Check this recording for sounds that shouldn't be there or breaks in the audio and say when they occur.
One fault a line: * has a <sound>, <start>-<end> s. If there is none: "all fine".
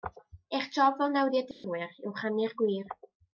* has a dropout, 1.5-1.6 s